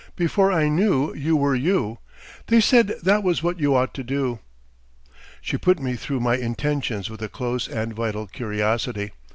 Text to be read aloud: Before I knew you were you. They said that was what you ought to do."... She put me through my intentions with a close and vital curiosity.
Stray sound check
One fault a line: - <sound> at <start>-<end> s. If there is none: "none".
none